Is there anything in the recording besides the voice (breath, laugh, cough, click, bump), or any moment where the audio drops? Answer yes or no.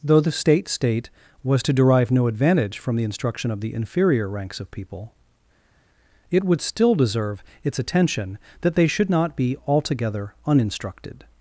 no